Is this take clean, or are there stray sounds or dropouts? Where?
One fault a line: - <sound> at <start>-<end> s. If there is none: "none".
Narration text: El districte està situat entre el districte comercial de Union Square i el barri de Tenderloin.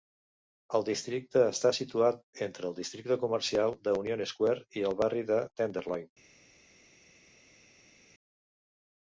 none